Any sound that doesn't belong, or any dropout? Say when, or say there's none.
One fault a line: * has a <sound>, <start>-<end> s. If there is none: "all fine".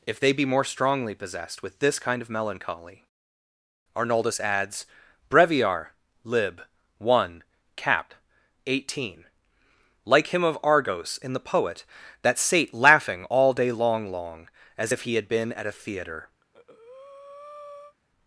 * has a breath, 16.4-18.0 s